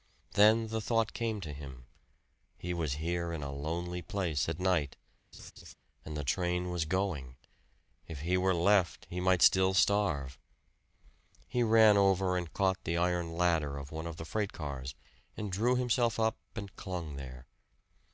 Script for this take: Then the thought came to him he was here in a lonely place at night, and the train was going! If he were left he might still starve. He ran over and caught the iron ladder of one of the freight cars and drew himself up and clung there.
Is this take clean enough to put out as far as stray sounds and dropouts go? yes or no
no